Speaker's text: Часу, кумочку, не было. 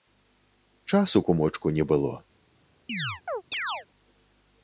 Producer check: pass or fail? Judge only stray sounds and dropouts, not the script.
fail